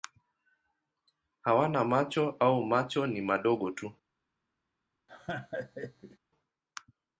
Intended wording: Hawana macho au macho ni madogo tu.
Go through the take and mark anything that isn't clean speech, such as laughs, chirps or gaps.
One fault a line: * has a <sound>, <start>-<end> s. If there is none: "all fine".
* has a laugh, 5.1-6.2 s